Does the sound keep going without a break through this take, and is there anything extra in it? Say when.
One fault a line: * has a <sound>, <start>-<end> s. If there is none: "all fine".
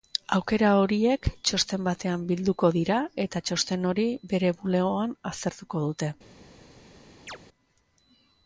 * has a chirp, 7.3-7.4 s